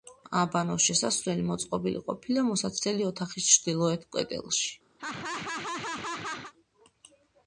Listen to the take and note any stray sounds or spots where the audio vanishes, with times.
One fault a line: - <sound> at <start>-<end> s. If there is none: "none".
- laugh at 5.0-6.5 s